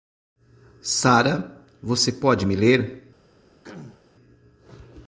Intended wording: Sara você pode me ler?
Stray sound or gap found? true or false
true